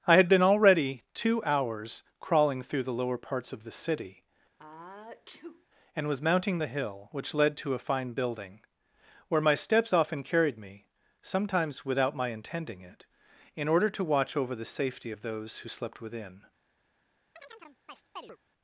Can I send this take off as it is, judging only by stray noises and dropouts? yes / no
no